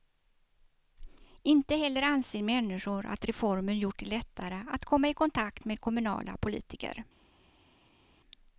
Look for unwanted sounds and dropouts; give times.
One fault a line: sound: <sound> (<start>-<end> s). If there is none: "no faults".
no faults